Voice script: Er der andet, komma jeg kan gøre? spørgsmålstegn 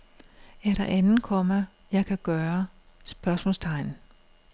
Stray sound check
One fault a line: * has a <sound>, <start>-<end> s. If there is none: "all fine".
all fine